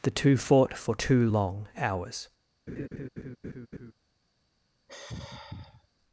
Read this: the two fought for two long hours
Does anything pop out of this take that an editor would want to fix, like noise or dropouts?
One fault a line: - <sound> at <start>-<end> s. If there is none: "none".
- laugh at 2.7-3.9 s
- sigh at 4.9-5.9 s